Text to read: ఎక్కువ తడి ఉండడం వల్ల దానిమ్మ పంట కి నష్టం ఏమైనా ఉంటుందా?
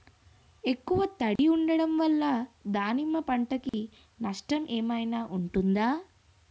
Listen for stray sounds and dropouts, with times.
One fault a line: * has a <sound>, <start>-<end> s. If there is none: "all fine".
* has a dropout, 1.4-1.4 s
* has a dropout, 3.7-3.7 s